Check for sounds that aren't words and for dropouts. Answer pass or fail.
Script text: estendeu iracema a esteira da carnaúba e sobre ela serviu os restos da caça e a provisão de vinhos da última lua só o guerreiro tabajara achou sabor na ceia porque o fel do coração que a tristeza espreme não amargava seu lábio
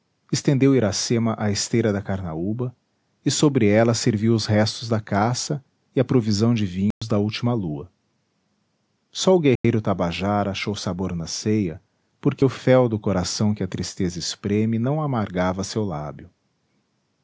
fail